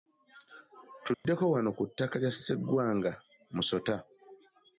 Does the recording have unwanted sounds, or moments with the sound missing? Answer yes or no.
yes